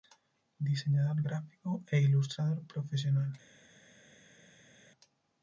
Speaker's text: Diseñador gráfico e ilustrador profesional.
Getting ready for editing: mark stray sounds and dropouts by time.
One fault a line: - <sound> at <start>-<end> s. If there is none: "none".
none